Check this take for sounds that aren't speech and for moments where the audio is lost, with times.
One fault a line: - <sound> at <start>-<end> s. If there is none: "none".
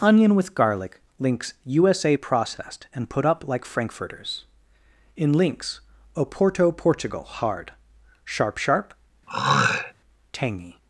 - throat clearing at 9.3-9.9 s